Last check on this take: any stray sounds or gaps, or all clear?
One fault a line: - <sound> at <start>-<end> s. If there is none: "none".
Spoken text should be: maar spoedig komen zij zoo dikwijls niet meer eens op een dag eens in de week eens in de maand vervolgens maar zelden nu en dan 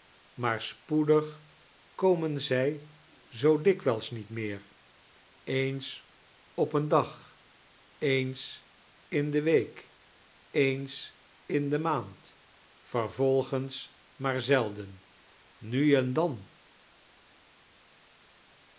none